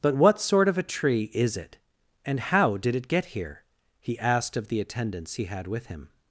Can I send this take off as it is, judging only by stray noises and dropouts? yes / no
yes